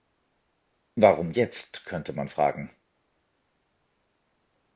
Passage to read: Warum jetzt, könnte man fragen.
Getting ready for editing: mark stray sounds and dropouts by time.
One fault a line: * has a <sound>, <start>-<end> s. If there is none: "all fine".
all fine